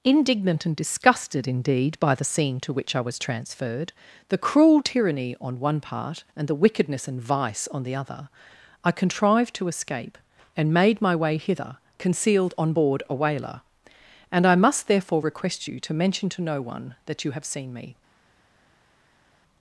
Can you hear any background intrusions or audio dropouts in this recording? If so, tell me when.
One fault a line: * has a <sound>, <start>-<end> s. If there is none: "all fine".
all fine